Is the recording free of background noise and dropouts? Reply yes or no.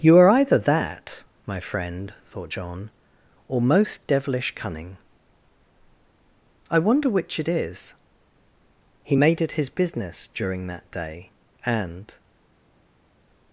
yes